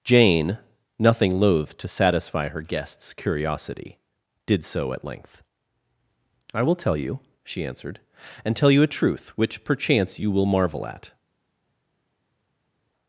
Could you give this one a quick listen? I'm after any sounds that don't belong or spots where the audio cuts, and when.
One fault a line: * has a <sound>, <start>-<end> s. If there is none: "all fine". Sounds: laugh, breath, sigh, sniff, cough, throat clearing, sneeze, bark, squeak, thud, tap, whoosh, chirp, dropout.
all fine